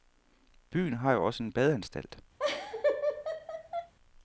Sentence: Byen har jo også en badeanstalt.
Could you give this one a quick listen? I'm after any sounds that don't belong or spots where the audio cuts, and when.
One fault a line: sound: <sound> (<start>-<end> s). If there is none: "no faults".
sound: laugh (2.4-3.9 s)